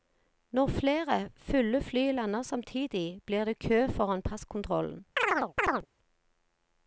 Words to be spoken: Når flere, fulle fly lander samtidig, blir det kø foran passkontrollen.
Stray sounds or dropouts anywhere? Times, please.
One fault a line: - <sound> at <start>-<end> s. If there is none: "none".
- chirp at 5.2-5.9 s